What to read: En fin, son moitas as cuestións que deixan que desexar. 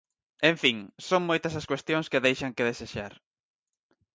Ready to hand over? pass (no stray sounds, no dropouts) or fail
pass